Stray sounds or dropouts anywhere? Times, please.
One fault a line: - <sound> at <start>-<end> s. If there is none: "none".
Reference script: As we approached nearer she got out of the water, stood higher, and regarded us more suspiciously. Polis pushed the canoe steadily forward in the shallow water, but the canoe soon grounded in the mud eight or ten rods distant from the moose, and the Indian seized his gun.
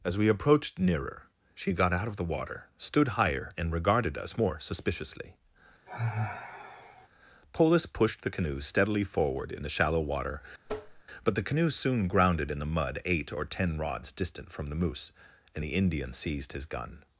- sigh at 5.9-7.1 s
- tap at 10.6-11.0 s